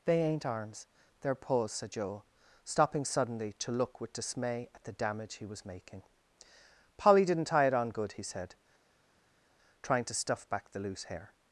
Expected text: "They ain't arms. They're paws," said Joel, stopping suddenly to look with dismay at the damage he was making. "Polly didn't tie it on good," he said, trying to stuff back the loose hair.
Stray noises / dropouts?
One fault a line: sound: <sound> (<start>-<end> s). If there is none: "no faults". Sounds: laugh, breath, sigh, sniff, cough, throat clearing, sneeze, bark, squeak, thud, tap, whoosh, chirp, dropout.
no faults